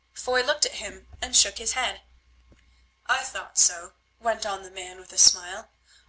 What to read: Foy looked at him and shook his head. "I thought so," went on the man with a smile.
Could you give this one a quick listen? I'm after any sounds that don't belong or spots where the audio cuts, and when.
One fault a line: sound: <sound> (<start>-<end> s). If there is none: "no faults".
no faults